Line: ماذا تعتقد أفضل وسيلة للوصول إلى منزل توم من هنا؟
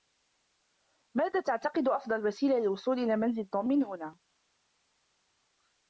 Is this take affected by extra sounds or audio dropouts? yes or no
no